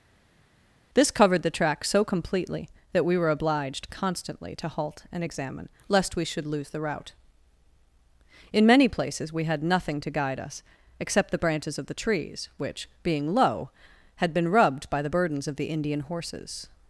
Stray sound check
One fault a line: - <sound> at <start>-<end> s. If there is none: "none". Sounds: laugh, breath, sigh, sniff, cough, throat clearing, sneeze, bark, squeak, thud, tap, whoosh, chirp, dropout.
none